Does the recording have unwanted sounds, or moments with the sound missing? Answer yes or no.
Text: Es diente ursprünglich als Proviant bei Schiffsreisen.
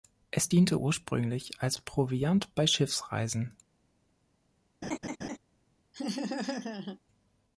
yes